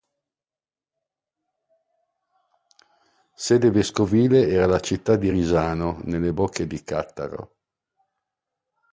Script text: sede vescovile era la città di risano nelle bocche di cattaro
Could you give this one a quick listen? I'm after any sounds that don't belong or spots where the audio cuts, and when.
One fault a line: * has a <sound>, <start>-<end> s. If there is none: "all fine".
all fine